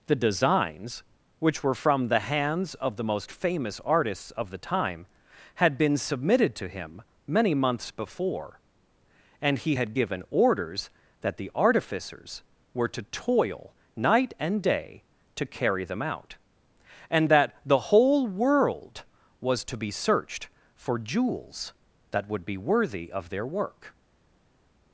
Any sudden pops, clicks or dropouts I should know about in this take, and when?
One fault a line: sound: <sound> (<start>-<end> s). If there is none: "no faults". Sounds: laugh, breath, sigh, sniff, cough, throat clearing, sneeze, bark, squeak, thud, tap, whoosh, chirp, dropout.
no faults